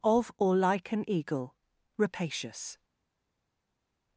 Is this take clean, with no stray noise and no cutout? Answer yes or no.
yes